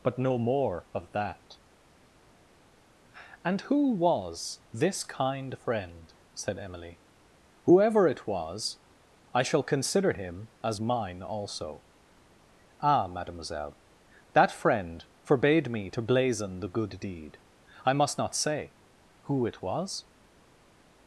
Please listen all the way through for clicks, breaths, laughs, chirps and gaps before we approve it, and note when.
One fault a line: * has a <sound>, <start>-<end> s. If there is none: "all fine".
all fine